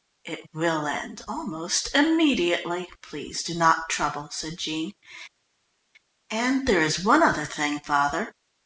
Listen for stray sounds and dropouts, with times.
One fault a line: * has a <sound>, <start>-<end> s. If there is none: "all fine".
all fine